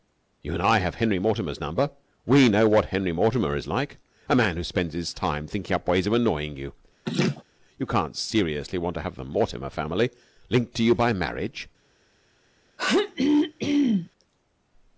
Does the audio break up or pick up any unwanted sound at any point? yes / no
yes